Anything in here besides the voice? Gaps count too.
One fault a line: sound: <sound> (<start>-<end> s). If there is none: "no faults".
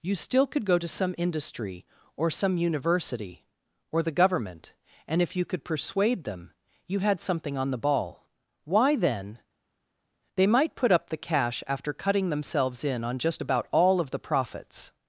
no faults